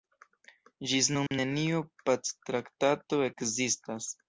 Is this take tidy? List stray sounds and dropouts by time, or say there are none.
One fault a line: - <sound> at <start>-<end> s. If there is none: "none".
- dropout at 1.3-1.3 s